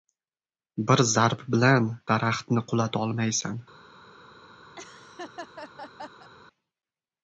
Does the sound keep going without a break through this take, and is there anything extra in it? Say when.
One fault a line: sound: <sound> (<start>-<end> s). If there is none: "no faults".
sound: laugh (4.7-6.3 s)